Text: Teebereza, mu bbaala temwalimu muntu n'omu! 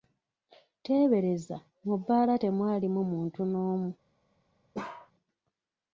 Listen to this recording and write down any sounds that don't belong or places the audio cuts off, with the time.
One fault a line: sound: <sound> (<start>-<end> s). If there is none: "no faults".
sound: bark (4.7-5.1 s)